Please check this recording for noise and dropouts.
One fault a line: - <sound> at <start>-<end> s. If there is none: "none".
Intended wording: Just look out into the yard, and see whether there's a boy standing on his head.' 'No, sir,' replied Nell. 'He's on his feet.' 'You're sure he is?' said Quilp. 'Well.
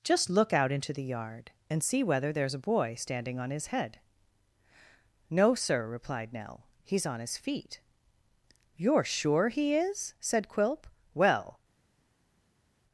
none